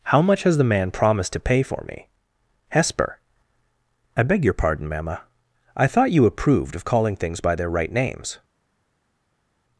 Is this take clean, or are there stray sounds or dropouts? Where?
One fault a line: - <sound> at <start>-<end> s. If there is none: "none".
none